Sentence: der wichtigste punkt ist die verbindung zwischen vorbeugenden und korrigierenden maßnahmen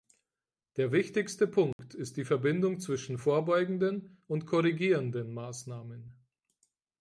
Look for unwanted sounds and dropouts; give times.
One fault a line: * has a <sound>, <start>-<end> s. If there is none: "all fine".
* has a dropout, 1.7-1.8 s